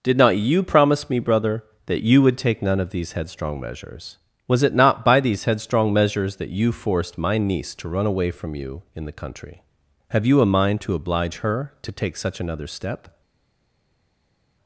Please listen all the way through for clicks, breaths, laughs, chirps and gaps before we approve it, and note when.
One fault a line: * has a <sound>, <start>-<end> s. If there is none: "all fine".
all fine